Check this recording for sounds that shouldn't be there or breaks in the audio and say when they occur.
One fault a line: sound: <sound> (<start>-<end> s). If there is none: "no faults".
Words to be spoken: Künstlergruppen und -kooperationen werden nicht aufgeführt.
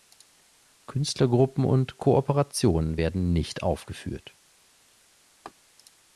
sound: laugh (5.4-5.5 s)